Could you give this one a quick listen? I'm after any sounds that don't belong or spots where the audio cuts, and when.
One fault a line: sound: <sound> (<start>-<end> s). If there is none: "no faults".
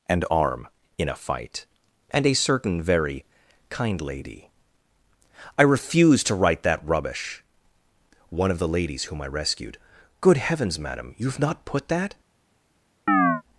sound: chirp (13.1-13.4 s)